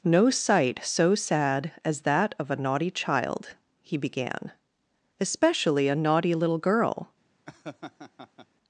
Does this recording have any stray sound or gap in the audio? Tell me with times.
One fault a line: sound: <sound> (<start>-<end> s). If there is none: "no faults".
sound: laugh (7.5-8.5 s)